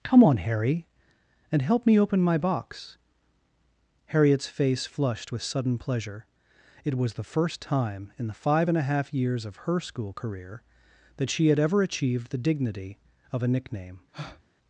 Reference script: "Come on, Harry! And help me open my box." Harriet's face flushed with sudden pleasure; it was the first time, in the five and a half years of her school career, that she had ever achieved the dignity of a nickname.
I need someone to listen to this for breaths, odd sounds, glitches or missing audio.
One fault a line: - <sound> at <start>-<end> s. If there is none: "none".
- breath at 14.1-14.4 s